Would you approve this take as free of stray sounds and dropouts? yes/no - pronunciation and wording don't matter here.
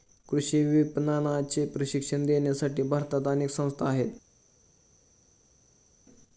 yes